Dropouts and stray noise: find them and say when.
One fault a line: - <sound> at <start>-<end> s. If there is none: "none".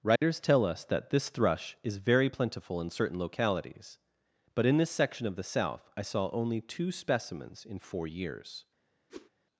- dropout at 0.2-0.2 s
- whoosh at 9.1-9.3 s